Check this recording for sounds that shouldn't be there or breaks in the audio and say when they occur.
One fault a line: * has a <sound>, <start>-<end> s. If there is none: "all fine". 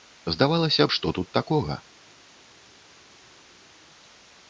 all fine